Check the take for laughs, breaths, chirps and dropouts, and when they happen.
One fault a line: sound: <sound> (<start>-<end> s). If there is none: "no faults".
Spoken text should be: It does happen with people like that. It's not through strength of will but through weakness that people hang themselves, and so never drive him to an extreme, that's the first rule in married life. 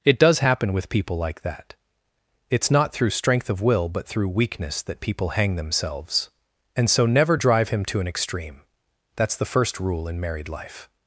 no faults